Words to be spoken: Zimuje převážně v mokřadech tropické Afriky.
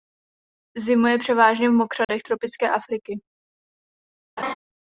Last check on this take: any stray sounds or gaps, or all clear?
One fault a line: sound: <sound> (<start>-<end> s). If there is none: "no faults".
sound: dropout (2.0-2.1 s)
sound: laugh (4.4-4.5 s)